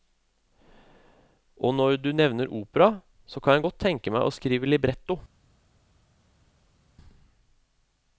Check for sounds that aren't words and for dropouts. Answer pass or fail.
pass